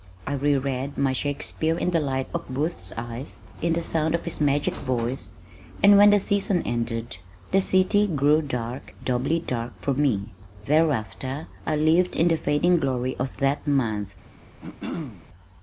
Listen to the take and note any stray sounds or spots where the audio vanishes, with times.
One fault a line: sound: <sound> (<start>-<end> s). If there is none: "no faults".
sound: throat clearing (14.6-15.3 s)